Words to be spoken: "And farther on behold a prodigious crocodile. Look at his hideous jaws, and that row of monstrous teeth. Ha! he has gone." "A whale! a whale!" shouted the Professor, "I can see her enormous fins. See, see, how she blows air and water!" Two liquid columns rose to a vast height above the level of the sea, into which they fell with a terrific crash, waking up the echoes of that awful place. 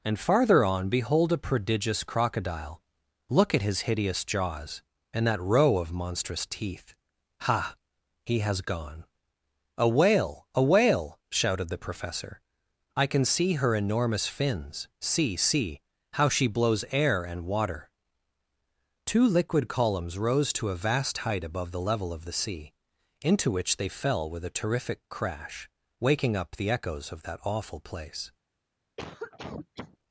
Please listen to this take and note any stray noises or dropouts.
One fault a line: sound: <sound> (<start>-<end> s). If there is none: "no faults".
sound: cough (29.0-30.0 s)